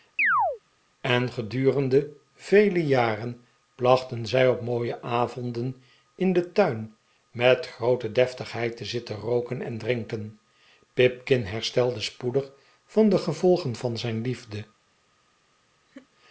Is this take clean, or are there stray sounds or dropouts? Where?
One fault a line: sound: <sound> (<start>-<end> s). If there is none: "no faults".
sound: chirp (0.2-0.6 s)
sound: laugh (15.9-16.1 s)